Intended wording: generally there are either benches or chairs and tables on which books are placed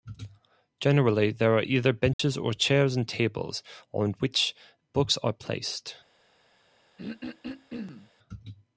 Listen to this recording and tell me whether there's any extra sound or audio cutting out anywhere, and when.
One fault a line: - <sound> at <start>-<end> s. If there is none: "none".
- dropout at 2.1-2.2 s
- throat clearing at 7.0-8.1 s